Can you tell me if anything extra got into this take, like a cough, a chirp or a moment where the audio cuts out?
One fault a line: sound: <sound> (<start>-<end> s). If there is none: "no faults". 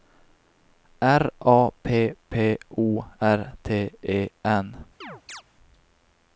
sound: chirp (5.0-5.4 s)